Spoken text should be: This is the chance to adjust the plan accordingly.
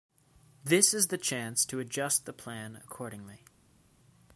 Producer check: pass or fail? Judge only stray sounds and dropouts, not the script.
pass